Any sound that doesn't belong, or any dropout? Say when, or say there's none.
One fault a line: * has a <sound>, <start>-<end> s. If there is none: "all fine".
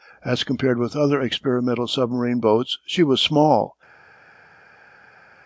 all fine